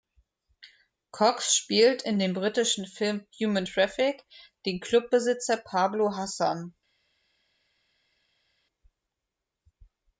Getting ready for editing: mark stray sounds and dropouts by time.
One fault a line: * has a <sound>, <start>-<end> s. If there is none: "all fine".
all fine